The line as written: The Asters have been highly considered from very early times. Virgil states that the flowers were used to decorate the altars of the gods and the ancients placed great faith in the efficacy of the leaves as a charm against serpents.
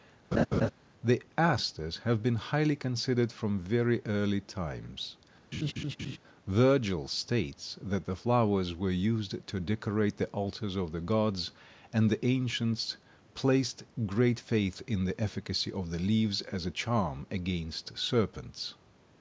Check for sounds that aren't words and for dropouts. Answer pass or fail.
fail